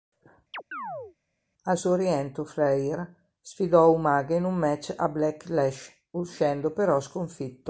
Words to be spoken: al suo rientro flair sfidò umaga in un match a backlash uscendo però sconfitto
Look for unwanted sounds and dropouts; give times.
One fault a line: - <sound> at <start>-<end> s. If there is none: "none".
- chirp at 0.5-1.2 s